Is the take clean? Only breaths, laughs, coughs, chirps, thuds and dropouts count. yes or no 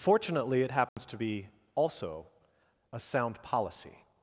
no